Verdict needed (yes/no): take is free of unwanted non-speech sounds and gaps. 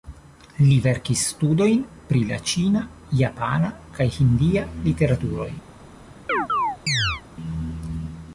no